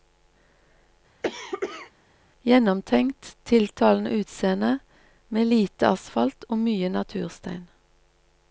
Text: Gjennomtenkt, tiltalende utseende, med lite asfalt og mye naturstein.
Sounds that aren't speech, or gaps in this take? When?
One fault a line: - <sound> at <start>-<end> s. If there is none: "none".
- cough at 1.2-1.9 s